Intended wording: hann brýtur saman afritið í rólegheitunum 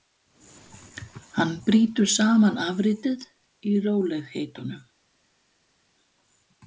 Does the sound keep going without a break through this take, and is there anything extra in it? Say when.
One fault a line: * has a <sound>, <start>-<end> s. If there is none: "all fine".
all fine